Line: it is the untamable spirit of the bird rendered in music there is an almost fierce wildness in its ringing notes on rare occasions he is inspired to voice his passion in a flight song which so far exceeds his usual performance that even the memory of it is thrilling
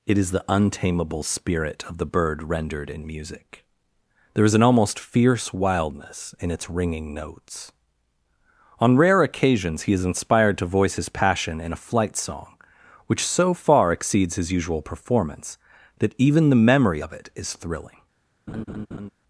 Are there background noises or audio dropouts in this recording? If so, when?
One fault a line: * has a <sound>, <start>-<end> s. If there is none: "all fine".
* has a laugh, 18.5-19.1 s